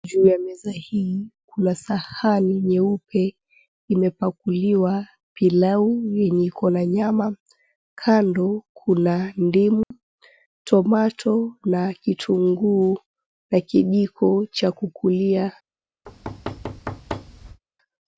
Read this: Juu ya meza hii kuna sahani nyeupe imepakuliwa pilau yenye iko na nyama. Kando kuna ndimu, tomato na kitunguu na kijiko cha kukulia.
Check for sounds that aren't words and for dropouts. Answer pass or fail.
fail